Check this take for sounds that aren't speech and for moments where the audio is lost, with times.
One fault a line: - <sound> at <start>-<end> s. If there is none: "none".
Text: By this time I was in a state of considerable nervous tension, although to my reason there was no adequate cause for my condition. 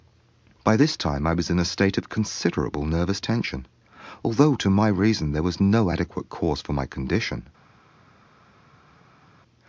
none